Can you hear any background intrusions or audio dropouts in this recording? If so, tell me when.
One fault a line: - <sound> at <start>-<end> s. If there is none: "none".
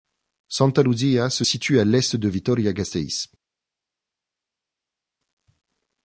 none